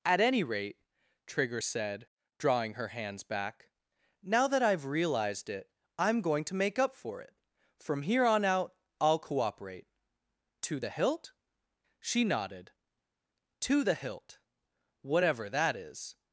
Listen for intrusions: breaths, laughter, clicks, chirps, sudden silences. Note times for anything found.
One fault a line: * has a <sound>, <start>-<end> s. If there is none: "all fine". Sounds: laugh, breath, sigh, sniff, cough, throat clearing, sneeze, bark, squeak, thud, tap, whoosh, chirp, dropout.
all fine